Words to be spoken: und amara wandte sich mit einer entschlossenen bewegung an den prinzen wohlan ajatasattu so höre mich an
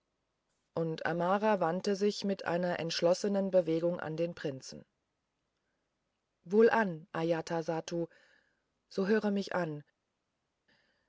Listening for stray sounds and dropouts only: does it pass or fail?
pass